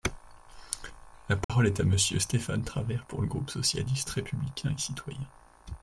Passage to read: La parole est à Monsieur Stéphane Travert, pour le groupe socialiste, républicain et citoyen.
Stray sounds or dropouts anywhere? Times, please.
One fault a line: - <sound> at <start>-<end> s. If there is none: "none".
- dropout at 1.4-1.5 s